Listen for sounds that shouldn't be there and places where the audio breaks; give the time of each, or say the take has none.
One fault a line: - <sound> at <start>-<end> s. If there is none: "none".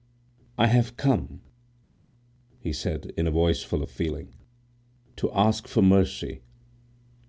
none